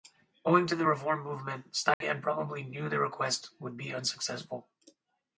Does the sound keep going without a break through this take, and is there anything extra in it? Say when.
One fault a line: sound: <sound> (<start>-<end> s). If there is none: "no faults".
sound: dropout (1.9-2.0 s)